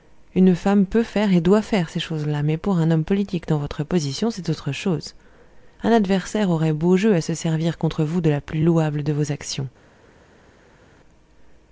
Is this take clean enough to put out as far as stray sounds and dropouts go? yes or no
yes